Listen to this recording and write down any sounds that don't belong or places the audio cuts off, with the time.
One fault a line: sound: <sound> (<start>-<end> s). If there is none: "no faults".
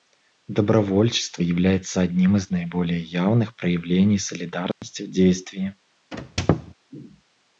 sound: dropout (4.7-4.8 s)
sound: squeak (6.1-6.7 s)